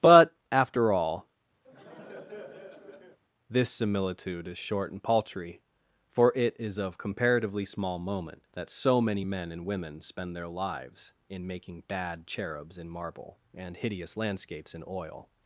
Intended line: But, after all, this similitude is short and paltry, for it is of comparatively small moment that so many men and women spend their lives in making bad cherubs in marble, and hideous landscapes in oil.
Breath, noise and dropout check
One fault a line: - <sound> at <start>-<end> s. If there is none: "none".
- laugh at 1.6-3.2 s